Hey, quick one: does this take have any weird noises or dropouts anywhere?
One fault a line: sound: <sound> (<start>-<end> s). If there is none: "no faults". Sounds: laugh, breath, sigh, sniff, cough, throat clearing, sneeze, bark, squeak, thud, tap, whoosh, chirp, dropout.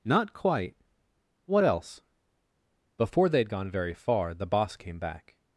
no faults